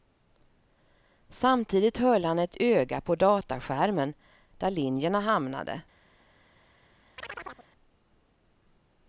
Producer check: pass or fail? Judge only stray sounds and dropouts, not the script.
fail